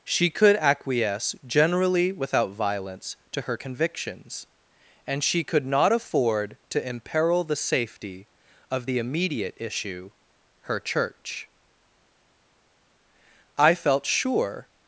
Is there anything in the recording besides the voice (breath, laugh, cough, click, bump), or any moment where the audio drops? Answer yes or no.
no